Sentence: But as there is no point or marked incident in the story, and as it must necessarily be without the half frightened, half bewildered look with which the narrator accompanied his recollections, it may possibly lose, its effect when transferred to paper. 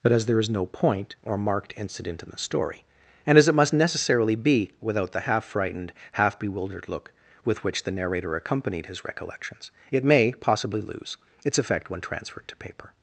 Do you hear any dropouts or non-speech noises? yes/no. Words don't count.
no